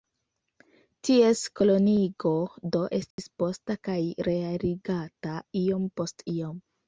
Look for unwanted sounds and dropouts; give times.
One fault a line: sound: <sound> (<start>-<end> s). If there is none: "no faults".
sound: dropout (3.1-3.2 s)